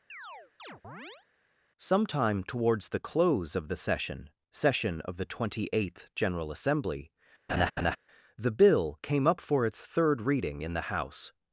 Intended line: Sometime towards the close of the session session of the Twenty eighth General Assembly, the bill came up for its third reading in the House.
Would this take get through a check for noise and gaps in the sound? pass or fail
fail